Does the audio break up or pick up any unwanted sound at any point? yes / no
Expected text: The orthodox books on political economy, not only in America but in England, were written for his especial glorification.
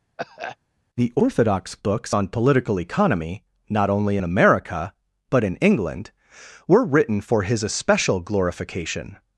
yes